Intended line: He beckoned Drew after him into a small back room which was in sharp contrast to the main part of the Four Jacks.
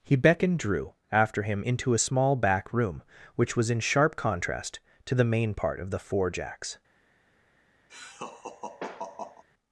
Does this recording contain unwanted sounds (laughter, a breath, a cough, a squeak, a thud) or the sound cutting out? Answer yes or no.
yes